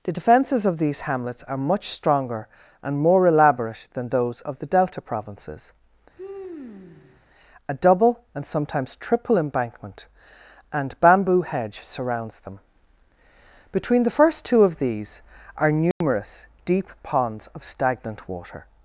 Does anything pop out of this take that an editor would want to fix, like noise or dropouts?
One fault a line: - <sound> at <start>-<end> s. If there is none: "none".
- sigh at 6.2-7.2 s
- dropout at 15.9-16.0 s